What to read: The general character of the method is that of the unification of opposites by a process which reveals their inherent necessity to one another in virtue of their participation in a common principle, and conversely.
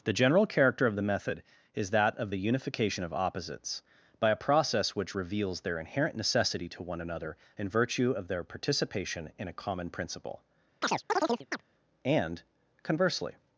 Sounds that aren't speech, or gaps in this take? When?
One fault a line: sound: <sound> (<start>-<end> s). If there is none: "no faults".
sound: chirp (10.8-11.6 s)